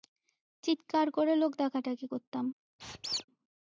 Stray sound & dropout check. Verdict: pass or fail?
fail